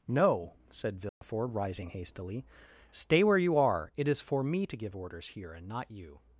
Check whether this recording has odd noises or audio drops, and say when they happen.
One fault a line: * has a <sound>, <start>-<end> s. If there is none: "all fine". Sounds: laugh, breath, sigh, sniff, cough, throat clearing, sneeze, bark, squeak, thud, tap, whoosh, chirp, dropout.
* has a dropout, 1.1-1.2 s